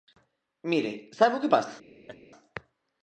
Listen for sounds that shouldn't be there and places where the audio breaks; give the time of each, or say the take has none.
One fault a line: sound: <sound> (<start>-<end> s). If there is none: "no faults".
sound: laugh (2.1-2.2 s)